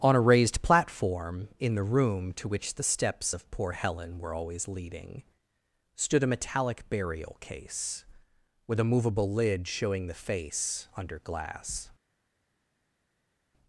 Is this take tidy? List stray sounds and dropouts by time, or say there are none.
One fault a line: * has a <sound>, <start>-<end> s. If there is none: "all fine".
all fine